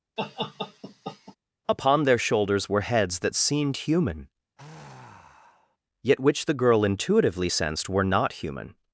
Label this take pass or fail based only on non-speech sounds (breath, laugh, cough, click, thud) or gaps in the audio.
fail